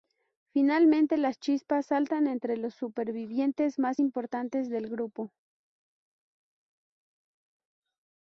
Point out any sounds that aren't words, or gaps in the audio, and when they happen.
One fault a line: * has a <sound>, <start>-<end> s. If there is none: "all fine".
all fine